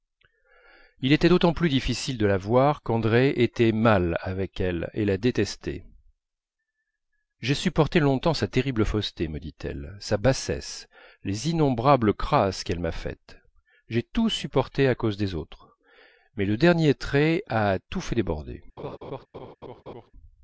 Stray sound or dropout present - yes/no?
yes